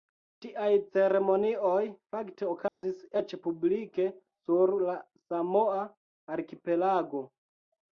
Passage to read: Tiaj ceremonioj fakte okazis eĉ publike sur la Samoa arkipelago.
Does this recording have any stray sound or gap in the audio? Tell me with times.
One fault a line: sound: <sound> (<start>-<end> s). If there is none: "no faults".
sound: dropout (2.7-2.8 s)